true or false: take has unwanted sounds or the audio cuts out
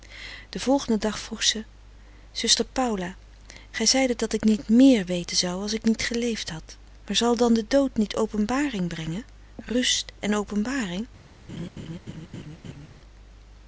true